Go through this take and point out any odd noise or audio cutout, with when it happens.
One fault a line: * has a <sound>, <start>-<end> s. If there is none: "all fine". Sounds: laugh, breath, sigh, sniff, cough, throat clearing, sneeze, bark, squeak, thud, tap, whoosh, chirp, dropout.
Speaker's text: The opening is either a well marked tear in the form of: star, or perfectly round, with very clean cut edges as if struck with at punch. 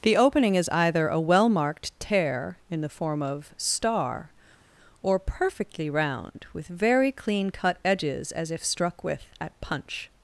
all fine